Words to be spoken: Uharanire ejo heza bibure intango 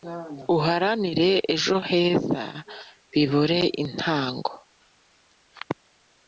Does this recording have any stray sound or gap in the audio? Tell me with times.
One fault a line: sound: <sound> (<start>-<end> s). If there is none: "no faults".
no faults